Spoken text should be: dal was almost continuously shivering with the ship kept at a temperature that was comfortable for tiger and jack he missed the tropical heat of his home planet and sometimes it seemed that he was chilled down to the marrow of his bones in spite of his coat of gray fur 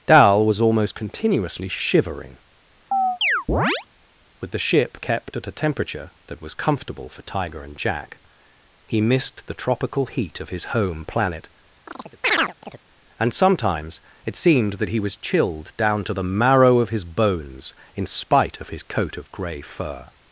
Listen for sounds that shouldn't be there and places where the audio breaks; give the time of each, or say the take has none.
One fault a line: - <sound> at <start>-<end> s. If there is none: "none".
- chirp at 2.9-3.9 s
- chirp at 11.9-12.8 s